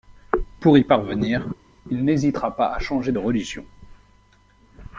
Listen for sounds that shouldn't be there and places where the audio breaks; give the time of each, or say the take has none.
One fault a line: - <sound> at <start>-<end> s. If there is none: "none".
none